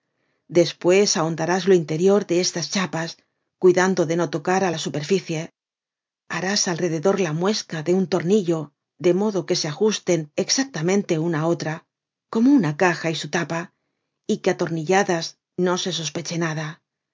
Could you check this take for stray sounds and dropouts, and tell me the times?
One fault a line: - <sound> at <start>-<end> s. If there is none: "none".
none